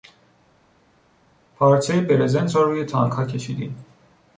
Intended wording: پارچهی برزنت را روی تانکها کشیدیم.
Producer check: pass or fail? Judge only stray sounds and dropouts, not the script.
pass